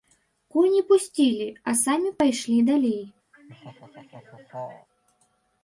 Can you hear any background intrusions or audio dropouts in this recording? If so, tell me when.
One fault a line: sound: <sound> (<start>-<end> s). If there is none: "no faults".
sound: laugh (3.3-4.9 s)